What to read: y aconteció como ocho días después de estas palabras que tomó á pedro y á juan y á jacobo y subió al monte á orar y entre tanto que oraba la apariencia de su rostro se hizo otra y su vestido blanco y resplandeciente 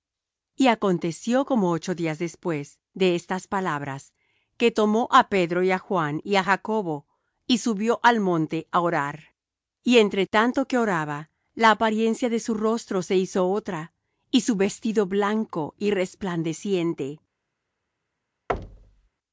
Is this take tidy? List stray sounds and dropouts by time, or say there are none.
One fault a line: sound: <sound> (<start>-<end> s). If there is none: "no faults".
sound: thud (18.5-19.1 s)